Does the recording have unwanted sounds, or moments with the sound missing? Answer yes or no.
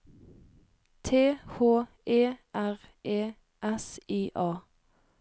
no